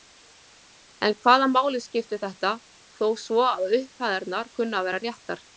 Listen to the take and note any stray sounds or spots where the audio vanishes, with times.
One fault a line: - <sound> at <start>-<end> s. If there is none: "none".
none